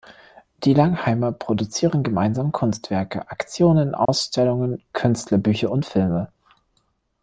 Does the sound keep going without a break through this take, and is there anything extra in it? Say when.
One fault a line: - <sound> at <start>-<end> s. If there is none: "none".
- dropout at 4.1-4.1 s